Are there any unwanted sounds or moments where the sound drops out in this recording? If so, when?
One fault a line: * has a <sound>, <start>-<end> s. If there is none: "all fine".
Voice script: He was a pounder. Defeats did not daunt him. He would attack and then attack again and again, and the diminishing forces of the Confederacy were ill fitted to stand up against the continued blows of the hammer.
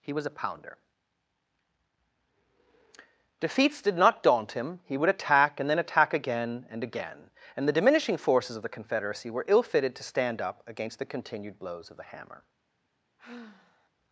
* has a sigh, 13.2-13.9 s